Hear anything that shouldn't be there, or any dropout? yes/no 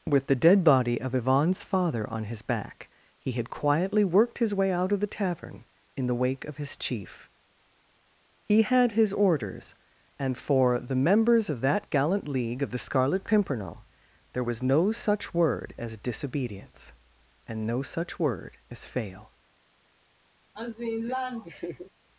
yes